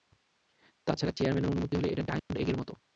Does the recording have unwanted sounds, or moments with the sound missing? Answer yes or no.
yes